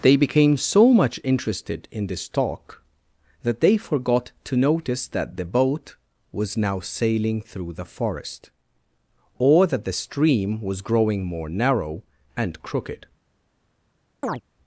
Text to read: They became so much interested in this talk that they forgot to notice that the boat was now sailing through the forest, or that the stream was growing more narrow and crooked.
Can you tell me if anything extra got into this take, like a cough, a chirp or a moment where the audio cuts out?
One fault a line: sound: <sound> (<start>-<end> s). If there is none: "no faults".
sound: chirp (14.2-14.4 s)